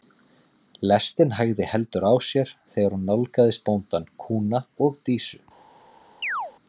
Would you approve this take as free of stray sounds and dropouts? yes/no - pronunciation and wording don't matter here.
no